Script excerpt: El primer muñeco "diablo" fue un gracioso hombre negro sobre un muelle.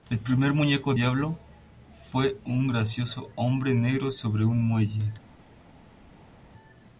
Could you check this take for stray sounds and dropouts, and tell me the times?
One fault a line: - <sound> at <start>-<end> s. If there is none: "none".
none